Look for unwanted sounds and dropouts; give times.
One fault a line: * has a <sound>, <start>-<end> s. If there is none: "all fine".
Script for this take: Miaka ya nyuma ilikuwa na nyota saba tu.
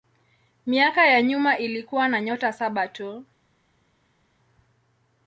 all fine